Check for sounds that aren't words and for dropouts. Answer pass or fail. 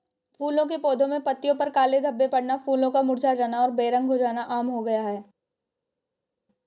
pass